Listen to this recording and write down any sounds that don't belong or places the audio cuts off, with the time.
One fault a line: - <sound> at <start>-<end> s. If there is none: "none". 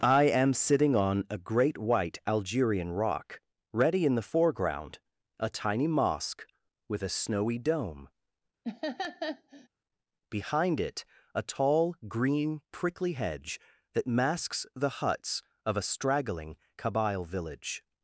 - laugh at 8.6-9.7 s